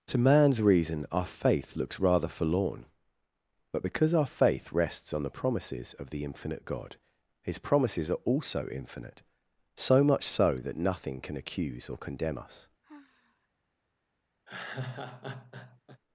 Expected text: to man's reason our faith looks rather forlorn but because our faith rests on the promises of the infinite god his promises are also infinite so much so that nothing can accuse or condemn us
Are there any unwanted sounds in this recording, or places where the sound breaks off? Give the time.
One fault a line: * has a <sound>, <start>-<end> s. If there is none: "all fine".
* has a sigh, 12.8-13.5 s
* has a laugh, 14.5-16.0 s